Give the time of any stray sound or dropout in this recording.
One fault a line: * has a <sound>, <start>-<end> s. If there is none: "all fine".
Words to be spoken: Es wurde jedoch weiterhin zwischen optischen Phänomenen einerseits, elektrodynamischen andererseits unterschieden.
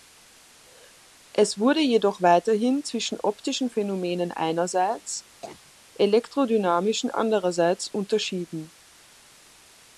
* has a cough, 5.4-5.7 s